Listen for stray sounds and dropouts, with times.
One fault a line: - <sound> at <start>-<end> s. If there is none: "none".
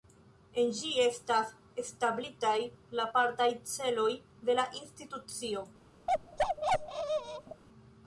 - bark at 6.1-7.6 s